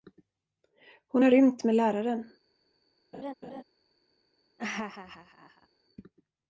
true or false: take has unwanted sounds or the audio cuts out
true